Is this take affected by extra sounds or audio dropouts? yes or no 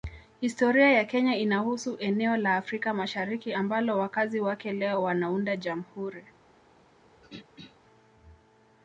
yes